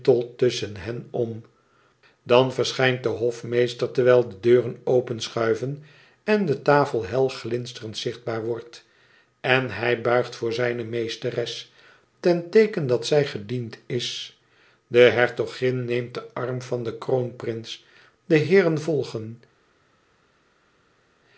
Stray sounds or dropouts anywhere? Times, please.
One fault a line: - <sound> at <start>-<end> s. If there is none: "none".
none